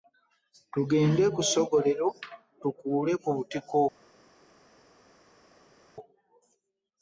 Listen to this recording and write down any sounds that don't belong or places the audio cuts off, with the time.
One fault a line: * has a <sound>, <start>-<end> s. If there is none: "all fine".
all fine